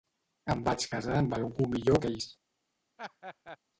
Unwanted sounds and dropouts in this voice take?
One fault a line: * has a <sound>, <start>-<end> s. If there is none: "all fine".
* has a laugh, 3.0-3.6 s